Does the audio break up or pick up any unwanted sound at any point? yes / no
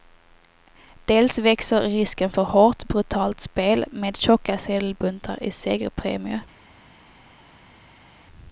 no